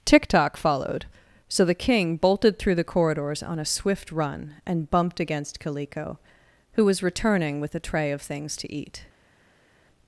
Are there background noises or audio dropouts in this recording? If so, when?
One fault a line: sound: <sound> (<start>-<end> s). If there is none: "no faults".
no faults